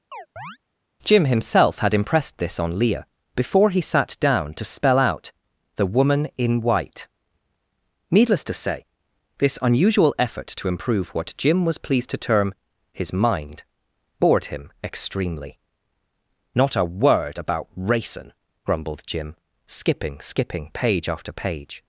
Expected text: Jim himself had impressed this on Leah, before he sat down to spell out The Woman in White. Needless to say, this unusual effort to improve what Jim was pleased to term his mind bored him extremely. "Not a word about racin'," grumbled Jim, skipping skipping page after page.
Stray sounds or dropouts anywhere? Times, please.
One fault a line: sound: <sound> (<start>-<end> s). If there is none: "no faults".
sound: chirp (0.1-0.6 s)